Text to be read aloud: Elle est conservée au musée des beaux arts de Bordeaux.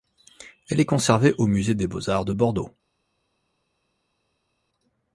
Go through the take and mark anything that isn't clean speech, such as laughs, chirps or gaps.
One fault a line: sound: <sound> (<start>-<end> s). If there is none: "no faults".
no faults